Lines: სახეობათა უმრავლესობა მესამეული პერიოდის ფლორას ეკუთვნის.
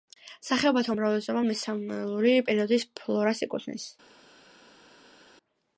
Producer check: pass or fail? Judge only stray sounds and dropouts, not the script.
pass